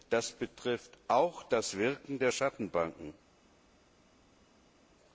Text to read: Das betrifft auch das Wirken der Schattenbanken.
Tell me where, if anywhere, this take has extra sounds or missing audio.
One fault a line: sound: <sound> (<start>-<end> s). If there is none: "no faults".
no faults